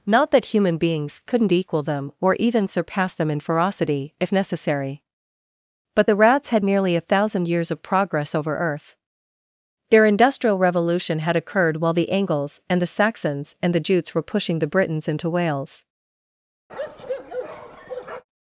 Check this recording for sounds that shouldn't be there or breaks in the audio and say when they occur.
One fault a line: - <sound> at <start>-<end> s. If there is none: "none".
- bark at 16.7-18.2 s